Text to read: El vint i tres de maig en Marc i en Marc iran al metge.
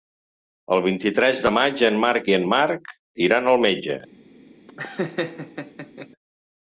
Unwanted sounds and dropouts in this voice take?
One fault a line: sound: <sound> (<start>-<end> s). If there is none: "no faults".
sound: laugh (4.7-6.1 s)